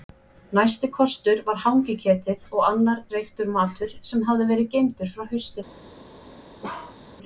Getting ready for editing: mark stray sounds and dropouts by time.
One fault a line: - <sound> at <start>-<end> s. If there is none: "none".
- bark at 6.6-7.0 s